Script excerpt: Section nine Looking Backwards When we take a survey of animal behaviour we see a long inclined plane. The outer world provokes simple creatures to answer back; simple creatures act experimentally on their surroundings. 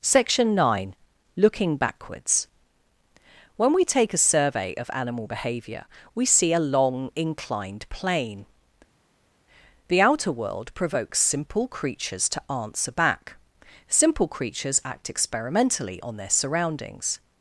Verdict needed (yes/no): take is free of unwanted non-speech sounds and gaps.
yes